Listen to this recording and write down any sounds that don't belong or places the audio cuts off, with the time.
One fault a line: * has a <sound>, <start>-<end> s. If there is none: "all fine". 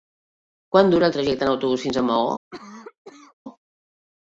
* has a cough, 2.5-3.3 s